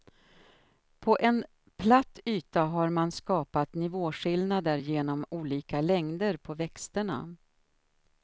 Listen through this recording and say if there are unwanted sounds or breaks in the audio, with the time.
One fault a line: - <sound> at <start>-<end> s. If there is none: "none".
none